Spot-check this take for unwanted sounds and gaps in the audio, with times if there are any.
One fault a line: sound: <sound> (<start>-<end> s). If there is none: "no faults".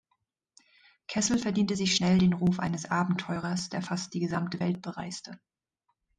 no faults